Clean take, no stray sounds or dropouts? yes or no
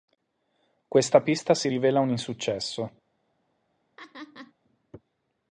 no